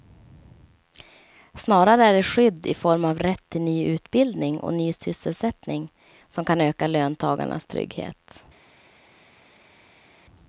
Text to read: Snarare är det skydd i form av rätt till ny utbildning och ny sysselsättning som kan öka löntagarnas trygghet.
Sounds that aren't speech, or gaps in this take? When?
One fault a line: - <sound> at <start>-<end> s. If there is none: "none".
none